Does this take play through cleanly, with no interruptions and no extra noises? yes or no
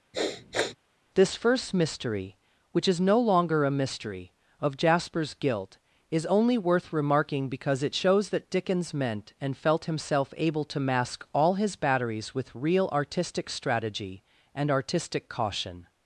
no